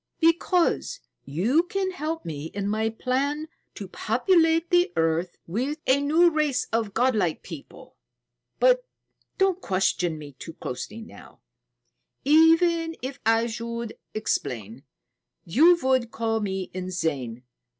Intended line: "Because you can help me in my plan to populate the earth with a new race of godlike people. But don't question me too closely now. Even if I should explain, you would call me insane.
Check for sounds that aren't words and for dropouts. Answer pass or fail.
pass